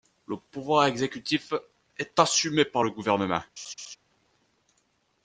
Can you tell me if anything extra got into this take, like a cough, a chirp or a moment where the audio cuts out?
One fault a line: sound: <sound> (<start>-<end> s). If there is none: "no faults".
sound: laugh (3.6-4.0 s)